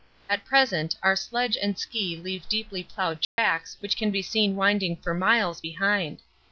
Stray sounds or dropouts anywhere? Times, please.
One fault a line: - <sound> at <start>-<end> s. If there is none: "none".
- dropout at 3.2-3.4 s